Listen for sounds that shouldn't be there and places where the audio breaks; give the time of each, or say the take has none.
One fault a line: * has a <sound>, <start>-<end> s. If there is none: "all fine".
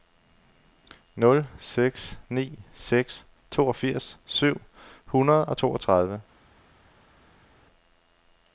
all fine